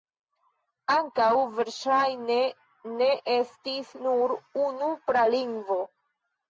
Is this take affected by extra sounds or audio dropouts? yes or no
no